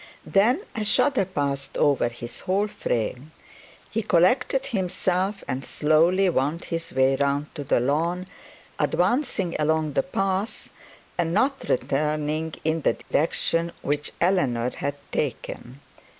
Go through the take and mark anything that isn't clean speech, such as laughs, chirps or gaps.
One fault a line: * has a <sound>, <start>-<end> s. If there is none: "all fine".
* has a dropout, 13.0-13.1 s